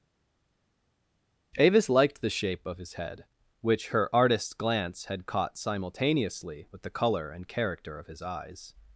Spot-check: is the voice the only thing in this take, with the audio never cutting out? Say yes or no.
yes